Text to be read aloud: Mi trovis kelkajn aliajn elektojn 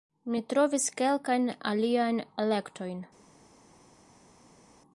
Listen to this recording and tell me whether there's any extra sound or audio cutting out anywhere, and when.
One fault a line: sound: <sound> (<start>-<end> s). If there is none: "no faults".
no faults